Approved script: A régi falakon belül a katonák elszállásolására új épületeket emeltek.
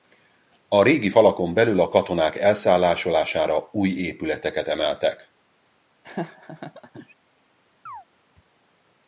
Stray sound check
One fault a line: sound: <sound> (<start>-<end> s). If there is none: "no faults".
sound: laugh (6.0-7.1 s)
sound: chirp (7.9-8.0 s)